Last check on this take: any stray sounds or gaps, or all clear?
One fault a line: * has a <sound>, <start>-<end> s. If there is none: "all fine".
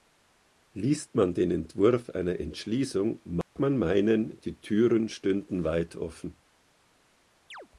* has a dropout, 3.4-3.6 s
* has a chirp, 7.5-7.7 s